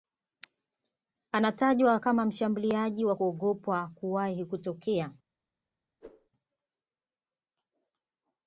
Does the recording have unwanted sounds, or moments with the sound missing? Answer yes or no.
yes